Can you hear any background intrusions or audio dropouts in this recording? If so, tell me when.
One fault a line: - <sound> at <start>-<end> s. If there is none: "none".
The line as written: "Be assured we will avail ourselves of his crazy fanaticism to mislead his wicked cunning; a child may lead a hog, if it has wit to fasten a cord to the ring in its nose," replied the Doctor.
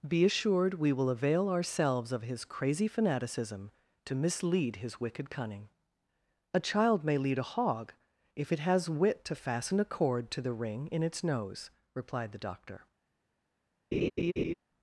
- laugh at 13.9-14.5 s